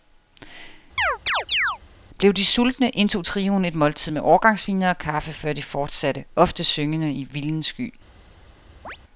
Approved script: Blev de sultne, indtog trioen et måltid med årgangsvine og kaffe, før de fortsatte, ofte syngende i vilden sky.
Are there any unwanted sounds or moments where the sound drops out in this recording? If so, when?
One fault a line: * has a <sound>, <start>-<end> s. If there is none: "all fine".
* has a chirp, 1.0-1.8 s
* has a chirp, 8.8-9.0 s